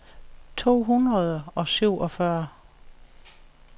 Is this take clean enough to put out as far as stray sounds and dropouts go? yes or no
yes